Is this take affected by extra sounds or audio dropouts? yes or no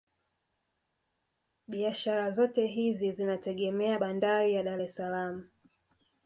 no